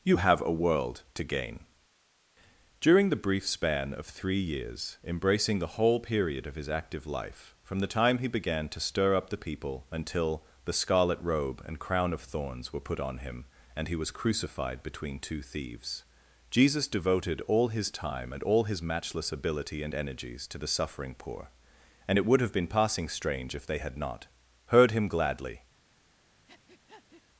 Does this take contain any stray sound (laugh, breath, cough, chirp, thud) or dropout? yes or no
yes